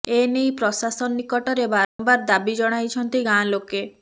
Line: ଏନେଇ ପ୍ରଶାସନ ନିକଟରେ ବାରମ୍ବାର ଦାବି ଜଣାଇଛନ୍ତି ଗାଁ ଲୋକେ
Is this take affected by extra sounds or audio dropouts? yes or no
yes